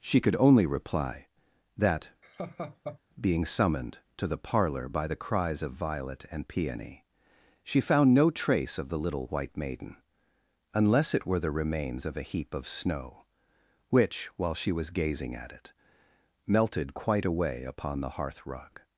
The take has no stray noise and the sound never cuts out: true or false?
false